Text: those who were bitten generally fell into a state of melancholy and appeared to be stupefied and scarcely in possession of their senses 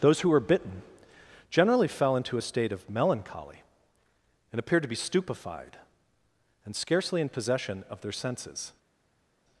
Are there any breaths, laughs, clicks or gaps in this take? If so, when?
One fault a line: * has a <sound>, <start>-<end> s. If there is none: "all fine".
all fine